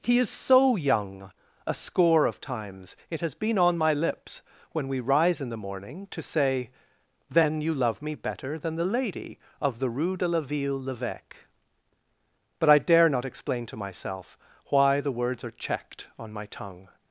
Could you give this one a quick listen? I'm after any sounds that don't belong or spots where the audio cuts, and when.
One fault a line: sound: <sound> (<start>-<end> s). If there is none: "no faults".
no faults